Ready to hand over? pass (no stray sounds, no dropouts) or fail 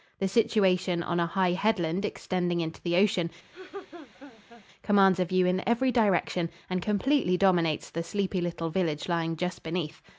fail